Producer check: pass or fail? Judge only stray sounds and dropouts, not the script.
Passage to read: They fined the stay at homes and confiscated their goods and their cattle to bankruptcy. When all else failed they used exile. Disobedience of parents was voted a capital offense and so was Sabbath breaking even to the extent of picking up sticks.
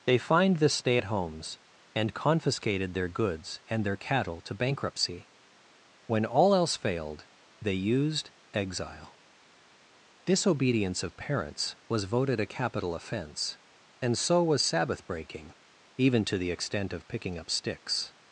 pass